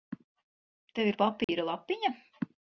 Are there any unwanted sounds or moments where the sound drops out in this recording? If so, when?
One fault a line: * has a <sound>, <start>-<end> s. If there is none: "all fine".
* has a dropout, 1.4-1.5 s